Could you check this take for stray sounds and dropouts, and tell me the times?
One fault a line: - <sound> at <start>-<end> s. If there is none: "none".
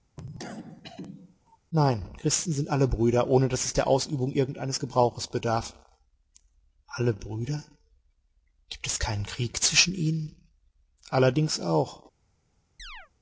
- cough at 0.2-1.6 s
- chirp at 12.8-13.1 s